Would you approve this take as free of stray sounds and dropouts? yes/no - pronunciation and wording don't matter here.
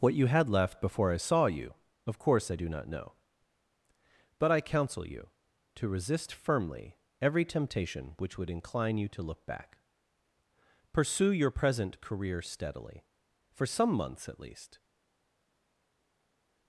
yes